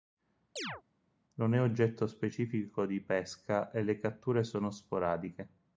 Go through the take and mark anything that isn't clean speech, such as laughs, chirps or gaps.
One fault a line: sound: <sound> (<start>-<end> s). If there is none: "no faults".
sound: chirp (0.6-0.8 s)